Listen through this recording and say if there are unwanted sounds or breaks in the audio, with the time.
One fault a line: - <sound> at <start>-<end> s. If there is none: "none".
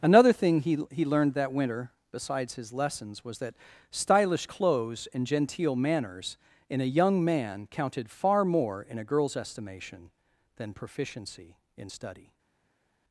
none